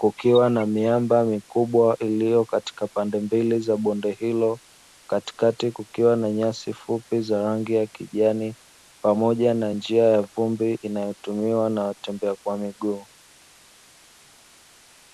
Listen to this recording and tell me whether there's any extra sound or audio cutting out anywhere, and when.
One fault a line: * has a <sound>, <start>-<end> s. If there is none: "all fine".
all fine